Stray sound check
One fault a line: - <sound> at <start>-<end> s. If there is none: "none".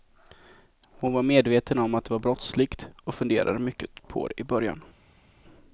none